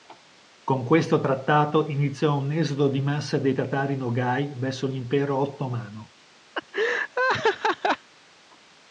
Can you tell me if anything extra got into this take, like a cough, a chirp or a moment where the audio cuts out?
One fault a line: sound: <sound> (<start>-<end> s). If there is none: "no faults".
sound: laugh (6.5-8.1 s)